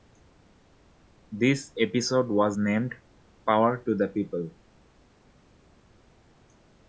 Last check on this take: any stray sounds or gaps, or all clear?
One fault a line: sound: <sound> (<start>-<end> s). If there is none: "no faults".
no faults